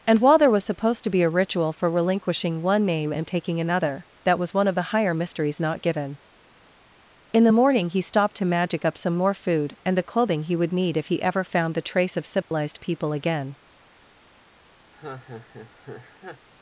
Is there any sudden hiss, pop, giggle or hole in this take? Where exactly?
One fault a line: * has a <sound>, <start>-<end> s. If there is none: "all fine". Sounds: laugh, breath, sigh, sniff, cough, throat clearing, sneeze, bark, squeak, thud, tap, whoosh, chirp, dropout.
* has a dropout, 12.4-12.5 s
* has a laugh, 14.9-16.5 s